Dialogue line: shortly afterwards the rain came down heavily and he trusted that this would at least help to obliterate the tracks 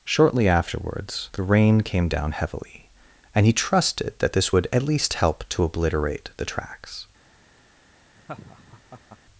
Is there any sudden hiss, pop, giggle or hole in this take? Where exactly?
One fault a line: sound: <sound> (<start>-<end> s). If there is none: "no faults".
sound: laugh (8.2-9.2 s)